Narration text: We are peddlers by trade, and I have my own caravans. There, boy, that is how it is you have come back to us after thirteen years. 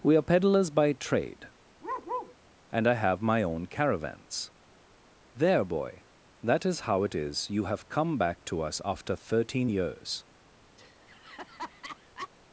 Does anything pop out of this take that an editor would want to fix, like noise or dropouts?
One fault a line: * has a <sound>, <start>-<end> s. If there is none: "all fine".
* has a bark, 1.8-2.4 s
* has a laugh, 10.8-12.3 s